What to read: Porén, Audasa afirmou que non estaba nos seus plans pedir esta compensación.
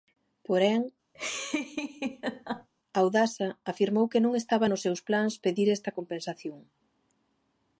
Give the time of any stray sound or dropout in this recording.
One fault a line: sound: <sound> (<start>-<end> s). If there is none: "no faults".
sound: laugh (1.1-2.7 s)